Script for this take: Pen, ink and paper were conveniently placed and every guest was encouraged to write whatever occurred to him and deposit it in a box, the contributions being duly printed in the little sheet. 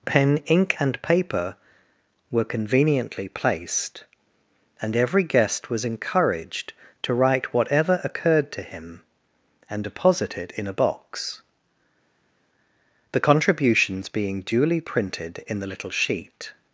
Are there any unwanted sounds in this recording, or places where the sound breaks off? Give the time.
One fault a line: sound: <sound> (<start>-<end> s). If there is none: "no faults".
no faults